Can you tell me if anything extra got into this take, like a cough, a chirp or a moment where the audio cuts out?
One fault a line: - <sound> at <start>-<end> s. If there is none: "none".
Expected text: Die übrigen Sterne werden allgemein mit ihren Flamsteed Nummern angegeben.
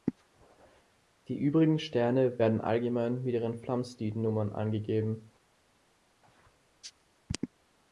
none